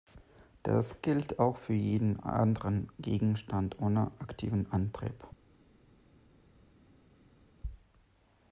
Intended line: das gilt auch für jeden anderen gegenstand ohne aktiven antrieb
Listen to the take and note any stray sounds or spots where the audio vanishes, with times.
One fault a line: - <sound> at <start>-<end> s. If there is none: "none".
none